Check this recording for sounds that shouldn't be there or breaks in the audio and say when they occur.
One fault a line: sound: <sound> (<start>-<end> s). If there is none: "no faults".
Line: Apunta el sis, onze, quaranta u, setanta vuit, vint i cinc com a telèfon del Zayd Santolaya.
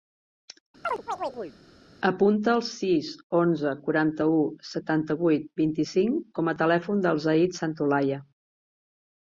sound: chirp (0.8-1.6 s)